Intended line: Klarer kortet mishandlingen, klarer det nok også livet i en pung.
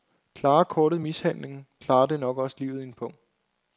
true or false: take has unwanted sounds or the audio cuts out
false